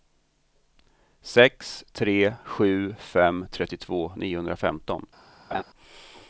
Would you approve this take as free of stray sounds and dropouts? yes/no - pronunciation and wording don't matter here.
no